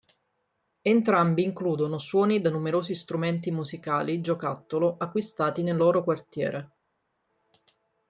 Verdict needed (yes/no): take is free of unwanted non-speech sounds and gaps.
yes